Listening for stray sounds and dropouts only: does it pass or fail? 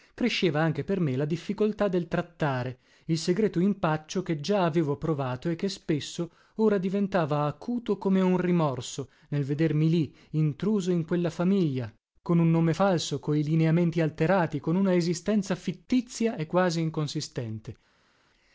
pass